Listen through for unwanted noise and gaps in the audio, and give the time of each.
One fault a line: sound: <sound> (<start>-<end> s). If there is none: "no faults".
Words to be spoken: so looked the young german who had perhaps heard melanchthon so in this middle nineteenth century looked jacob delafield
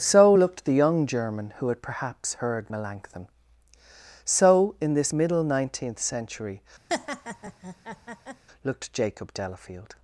sound: laugh (6.9-8.4 s)